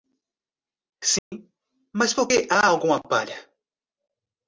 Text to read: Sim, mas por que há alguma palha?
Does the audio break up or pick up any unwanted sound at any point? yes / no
yes